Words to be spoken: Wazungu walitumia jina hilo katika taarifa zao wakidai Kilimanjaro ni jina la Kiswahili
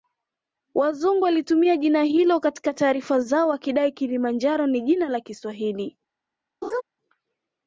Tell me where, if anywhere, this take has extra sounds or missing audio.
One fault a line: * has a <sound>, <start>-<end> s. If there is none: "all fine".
* has a laugh, 6.6-6.8 s